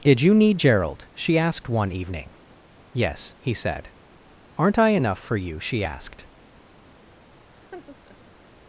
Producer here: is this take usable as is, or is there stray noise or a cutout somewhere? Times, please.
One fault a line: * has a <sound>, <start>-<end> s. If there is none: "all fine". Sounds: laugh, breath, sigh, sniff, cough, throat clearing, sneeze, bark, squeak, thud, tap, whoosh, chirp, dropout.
* has a laugh, 7.5-8.4 s